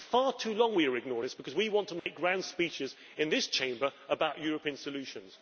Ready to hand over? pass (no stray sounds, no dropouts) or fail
fail